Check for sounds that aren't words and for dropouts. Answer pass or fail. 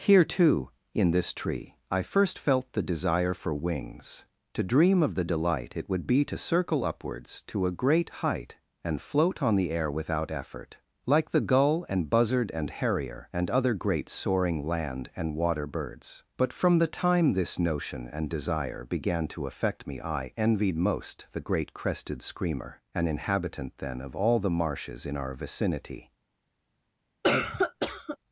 fail